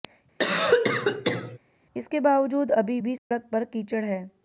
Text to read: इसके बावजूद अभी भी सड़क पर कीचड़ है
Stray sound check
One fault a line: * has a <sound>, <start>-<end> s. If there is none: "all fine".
* has a cough, 0.4-1.6 s
* has a dropout, 3.2-3.3 s